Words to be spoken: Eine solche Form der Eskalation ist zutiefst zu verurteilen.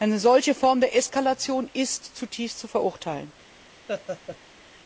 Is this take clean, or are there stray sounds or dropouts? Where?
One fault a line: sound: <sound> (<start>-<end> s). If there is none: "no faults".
sound: laugh (3.9-4.4 s)